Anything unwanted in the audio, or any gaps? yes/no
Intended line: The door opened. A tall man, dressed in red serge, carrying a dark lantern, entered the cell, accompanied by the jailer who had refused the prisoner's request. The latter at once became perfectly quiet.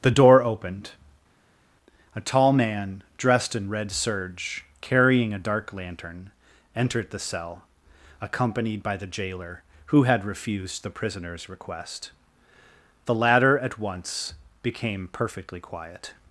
no